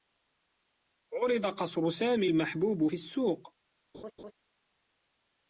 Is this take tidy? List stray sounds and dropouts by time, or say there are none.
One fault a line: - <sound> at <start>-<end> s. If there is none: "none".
- laugh at 3.9-4.3 s